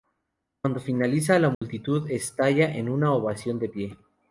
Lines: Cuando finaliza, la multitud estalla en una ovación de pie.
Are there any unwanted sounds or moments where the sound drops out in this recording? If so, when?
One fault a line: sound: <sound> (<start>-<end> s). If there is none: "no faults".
sound: dropout (1.5-1.6 s)